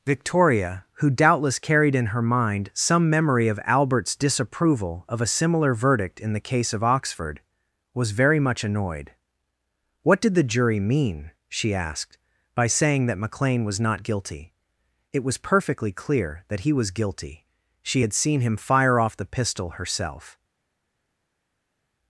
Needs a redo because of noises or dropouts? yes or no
no